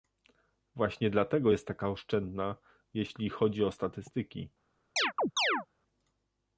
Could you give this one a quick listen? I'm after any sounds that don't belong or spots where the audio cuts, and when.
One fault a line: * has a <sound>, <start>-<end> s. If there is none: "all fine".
* has a chirp, 5.0-5.7 s